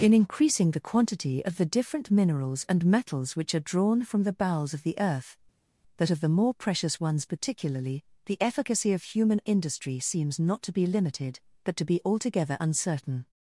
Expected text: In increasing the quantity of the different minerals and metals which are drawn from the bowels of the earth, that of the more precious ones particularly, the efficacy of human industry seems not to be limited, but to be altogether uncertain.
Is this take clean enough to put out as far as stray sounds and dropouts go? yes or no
yes